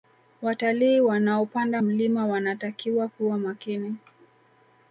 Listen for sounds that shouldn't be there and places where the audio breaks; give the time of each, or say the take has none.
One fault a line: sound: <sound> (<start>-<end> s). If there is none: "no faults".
no faults